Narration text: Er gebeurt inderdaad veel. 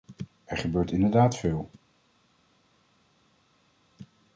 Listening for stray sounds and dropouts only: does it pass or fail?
pass